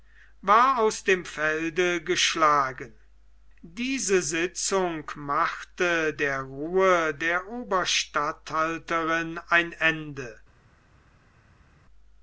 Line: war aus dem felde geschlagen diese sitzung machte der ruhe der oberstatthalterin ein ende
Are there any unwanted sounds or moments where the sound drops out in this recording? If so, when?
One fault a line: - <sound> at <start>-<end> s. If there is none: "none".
none